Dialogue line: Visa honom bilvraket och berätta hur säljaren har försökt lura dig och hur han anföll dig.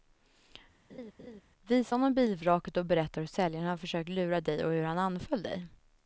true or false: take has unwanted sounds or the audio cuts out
true